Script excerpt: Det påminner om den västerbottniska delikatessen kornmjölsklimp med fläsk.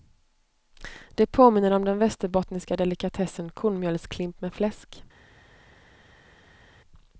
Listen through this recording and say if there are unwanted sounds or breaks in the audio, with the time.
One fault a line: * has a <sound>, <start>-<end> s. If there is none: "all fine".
all fine